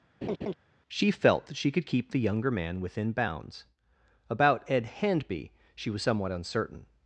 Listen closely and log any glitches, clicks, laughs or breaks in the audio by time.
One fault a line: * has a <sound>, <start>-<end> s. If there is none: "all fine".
* has a laugh, 0.2-0.5 s